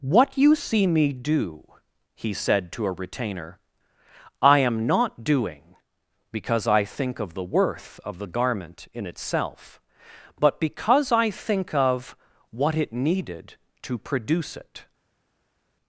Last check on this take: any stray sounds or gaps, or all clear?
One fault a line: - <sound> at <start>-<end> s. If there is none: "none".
none